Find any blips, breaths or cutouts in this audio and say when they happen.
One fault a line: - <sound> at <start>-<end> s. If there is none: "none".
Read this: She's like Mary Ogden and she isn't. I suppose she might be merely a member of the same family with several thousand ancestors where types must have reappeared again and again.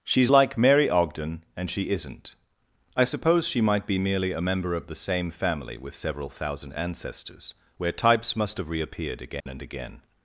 - dropout at 9.4-9.5 s